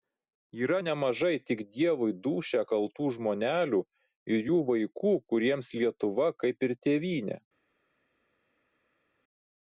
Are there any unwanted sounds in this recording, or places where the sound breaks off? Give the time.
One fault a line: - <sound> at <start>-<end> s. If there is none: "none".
none